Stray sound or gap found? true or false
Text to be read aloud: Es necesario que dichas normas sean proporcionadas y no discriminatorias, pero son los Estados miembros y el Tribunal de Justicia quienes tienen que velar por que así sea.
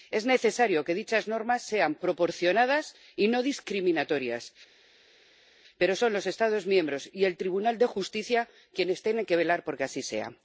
false